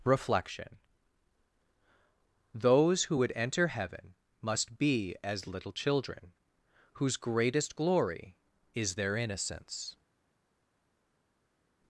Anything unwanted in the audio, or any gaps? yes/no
no